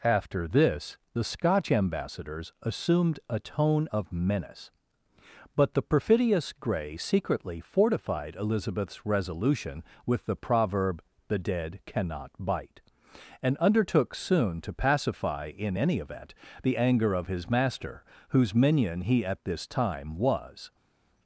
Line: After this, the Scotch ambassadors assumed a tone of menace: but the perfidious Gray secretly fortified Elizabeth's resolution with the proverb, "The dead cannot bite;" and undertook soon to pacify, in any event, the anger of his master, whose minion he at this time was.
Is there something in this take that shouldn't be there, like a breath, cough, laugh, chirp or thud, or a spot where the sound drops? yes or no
no